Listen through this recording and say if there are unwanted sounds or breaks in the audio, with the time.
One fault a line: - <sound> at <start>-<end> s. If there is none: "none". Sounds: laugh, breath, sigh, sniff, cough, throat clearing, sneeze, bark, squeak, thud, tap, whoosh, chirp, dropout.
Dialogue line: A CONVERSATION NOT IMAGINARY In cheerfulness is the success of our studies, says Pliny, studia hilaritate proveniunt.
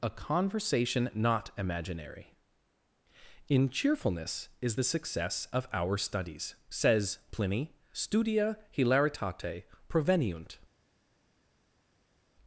none